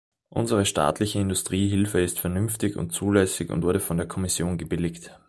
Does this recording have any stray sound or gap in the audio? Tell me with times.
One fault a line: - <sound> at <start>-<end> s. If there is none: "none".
none